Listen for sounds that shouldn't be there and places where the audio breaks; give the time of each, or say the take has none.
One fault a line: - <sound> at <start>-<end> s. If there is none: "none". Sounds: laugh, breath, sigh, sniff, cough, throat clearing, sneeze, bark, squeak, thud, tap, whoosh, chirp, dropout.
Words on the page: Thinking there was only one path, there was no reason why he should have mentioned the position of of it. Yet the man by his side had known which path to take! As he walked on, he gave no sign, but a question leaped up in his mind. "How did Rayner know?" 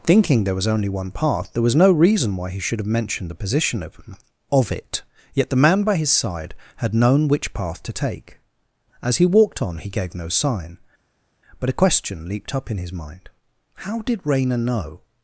none